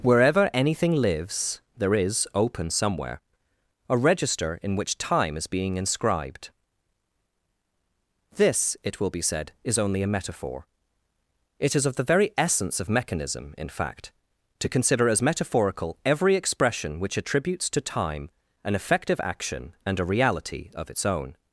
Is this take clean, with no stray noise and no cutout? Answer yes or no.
yes